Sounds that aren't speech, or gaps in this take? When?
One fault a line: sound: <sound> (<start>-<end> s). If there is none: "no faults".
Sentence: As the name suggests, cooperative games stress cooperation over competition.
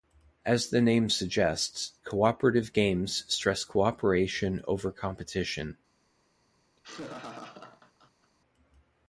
sound: laugh (6.8-8.3 s)